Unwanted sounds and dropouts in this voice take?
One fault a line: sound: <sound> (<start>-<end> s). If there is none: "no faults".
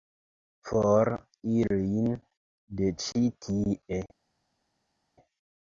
no faults